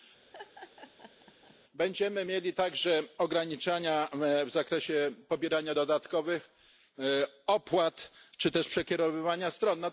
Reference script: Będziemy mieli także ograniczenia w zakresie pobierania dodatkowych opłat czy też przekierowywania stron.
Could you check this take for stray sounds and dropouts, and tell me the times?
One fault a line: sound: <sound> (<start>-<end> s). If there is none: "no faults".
sound: laugh (0.3-1.6 s)